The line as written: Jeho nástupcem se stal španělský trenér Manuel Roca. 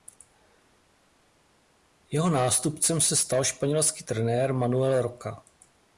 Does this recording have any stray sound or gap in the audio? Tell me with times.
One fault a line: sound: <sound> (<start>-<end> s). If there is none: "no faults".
no faults